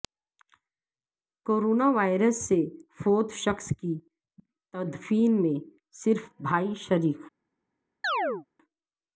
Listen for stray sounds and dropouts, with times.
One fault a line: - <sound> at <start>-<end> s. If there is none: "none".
- chirp at 8.0-8.5 s